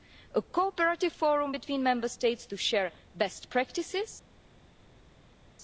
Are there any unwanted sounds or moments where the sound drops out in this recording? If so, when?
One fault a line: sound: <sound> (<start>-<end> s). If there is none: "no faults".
no faults